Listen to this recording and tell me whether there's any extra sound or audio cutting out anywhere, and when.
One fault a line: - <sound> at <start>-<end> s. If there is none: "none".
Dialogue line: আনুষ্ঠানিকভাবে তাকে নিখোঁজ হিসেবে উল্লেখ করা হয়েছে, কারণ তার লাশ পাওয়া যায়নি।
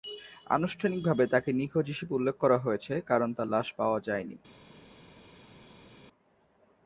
none